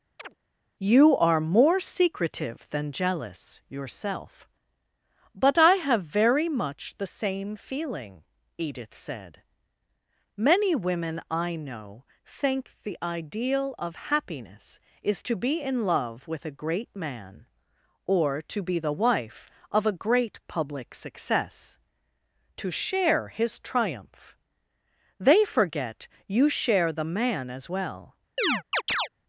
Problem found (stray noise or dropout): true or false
true